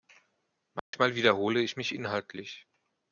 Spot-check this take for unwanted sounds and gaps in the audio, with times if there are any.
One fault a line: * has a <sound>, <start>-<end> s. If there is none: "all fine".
* has a dropout, 0.8-0.9 s